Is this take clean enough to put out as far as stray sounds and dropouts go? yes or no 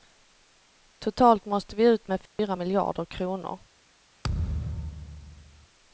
no